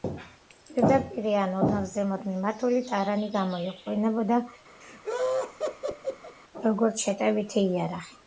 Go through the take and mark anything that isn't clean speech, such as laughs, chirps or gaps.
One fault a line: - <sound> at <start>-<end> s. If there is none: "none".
- laugh at 4.8-6.4 s